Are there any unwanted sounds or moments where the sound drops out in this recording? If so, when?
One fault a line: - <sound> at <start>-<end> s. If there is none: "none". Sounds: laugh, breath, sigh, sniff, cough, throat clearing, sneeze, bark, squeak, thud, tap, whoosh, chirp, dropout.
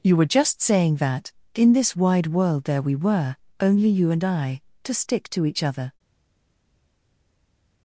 none